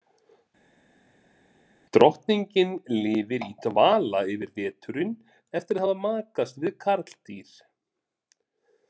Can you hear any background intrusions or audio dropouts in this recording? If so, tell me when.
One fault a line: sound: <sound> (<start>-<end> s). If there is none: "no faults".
no faults